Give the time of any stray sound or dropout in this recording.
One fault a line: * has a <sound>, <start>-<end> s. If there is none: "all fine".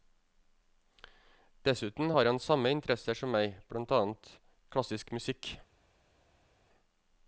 all fine